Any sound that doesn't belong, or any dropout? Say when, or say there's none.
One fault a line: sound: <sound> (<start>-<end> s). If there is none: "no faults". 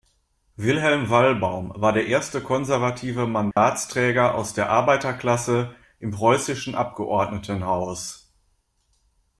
sound: dropout (3.5-3.6 s)